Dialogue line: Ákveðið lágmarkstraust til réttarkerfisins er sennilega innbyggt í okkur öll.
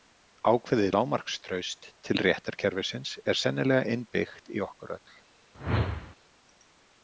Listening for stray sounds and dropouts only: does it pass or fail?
fail